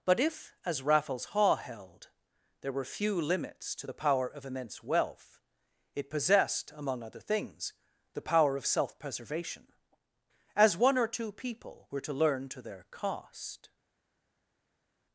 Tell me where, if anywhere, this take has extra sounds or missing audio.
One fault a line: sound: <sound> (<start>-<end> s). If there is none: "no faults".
no faults